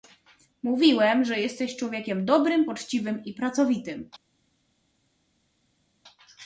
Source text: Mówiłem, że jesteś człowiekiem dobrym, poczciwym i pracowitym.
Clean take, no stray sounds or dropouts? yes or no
yes